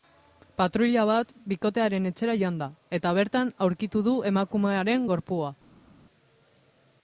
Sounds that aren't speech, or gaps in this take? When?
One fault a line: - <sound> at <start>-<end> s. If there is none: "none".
none